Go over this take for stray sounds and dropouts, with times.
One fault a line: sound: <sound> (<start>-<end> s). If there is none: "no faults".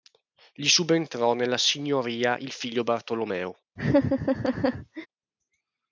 sound: laugh (3.8-5.1 s)